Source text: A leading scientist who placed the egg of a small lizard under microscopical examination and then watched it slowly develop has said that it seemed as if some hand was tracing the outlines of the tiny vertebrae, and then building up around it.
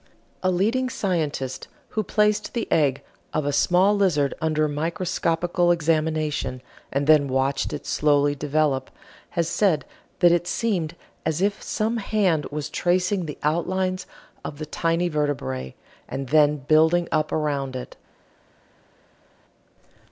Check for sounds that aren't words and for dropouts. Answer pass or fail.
pass